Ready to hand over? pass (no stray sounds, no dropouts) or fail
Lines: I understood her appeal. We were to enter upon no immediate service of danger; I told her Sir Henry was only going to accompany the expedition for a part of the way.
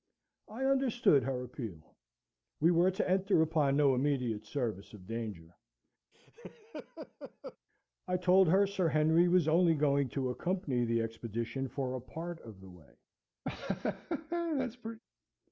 fail